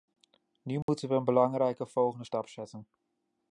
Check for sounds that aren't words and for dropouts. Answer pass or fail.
fail